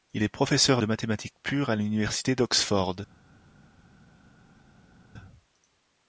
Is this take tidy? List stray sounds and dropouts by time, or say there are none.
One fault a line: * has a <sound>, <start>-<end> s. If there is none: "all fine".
all fine